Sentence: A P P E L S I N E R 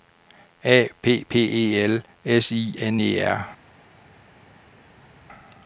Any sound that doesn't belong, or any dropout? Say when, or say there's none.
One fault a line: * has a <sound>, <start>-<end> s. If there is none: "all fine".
all fine